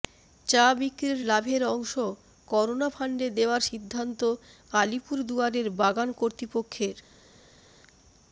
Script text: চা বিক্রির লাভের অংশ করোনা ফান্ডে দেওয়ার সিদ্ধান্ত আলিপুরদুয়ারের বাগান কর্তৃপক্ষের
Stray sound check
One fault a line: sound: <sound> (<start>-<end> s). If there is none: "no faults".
no faults